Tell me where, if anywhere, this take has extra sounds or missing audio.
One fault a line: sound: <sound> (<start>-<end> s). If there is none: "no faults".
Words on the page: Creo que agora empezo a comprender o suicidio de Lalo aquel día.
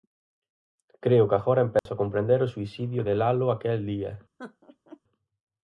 sound: dropout (1.8-1.9 s)
sound: laugh (4.4-5.0 s)